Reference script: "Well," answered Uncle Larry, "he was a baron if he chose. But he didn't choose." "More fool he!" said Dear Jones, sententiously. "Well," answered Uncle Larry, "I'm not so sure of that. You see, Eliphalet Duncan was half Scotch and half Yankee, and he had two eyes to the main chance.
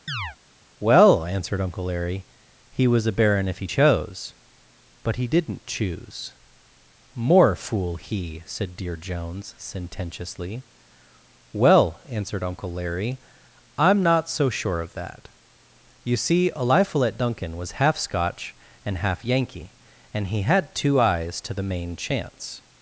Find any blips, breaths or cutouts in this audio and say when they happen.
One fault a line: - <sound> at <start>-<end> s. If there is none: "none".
- chirp at 0.1-0.4 s